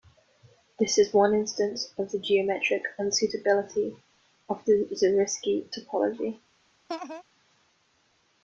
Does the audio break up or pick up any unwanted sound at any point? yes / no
yes